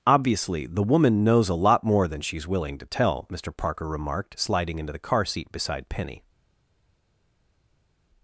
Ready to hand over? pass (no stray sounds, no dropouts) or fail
pass